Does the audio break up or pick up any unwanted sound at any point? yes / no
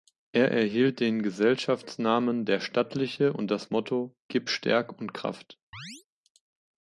yes